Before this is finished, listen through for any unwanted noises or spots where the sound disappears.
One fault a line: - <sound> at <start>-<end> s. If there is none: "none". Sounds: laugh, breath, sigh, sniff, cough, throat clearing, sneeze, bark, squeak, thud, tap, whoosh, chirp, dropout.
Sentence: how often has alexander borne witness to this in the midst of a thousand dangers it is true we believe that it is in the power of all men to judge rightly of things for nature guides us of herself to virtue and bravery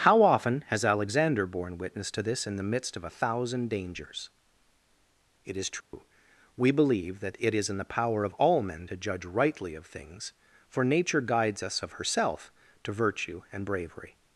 - dropout at 5.8-5.9 s